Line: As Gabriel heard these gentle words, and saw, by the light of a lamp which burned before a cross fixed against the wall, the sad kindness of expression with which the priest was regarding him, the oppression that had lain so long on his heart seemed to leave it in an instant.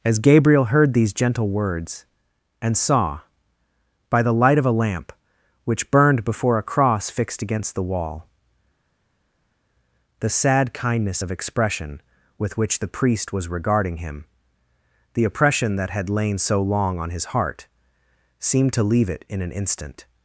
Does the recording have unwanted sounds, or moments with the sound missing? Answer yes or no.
no